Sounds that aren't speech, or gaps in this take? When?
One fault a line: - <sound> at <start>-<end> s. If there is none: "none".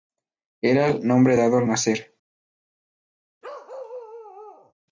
- bark at 3.4-4.7 s